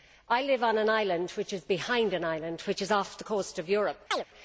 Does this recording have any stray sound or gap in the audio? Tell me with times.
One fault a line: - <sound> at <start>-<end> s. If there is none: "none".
- chirp at 4.1-4.2 s